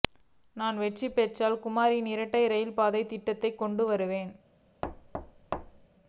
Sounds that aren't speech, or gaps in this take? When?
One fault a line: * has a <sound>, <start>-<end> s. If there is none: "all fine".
* has a thud, 4.8-5.9 s